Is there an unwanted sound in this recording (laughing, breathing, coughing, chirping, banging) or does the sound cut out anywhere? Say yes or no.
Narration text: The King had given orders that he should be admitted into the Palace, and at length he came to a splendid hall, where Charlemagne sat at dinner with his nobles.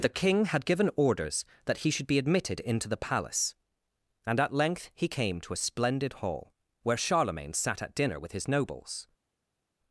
no